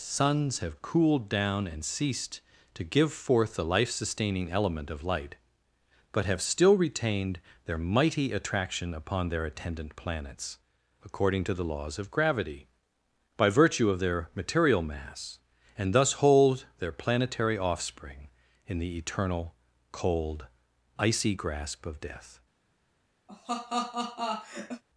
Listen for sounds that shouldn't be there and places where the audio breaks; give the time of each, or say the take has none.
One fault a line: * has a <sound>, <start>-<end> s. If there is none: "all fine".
* has a laugh, 23.3-24.8 s